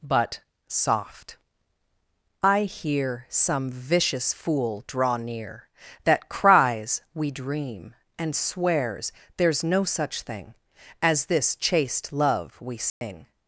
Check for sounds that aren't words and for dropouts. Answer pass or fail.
fail